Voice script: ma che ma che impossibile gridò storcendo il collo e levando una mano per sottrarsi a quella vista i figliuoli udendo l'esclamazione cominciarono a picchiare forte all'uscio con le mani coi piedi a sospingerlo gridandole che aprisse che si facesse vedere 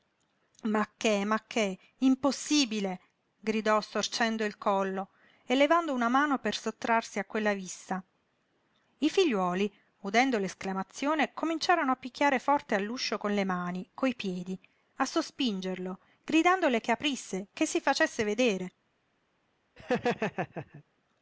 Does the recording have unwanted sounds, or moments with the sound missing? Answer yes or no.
yes